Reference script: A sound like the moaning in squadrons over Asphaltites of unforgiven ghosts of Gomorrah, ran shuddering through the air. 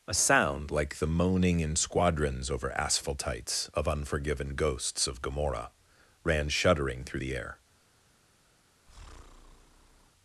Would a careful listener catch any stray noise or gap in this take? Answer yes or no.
yes